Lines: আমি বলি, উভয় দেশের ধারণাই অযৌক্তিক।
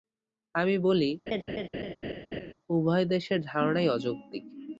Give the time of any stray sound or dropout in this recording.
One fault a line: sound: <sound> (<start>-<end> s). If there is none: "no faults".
sound: laugh (1.3-2.5 s)